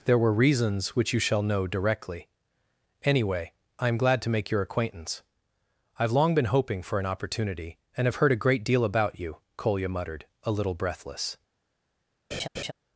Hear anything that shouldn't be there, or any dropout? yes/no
yes